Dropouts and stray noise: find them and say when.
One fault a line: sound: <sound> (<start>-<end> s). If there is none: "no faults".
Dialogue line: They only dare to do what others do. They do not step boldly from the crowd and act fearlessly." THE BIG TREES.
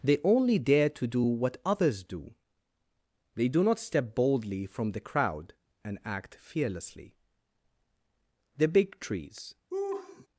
sound: laugh (9.7-10.3 s)